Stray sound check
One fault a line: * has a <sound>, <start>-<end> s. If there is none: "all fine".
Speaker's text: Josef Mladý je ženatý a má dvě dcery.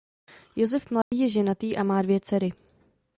* has a dropout, 1.0-1.1 s